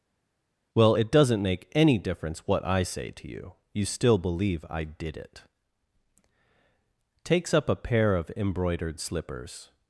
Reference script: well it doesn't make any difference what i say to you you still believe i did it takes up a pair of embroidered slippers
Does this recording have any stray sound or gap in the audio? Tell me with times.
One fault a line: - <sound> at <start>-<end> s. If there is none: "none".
none